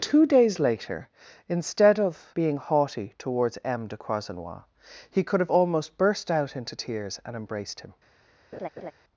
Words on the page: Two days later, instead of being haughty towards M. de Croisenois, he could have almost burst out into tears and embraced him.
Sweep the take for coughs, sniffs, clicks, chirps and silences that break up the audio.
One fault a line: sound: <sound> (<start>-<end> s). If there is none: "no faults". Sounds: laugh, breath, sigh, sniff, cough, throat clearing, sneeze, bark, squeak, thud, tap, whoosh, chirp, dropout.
sound: laugh (8.5-8.9 s)